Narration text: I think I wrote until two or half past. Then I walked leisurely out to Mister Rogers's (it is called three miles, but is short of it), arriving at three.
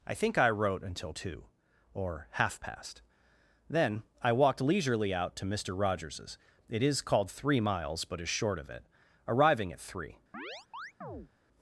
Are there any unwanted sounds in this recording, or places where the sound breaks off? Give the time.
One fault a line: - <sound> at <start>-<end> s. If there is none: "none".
- chirp at 10.3-11.3 s